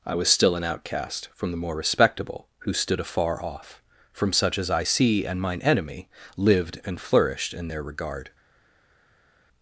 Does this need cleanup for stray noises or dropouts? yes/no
no